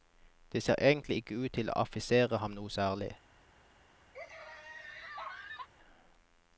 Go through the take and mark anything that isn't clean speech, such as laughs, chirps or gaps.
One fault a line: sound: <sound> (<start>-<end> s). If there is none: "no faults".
sound: laugh (4.1-5.7 s)